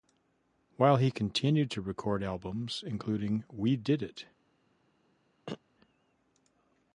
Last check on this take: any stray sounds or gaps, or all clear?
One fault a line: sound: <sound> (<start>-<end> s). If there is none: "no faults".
sound: throat clearing (5.5-5.6 s)